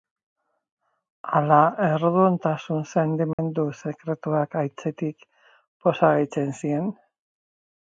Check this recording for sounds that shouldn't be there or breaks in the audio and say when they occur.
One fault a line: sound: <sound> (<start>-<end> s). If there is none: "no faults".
sound: dropout (3.3-3.4 s)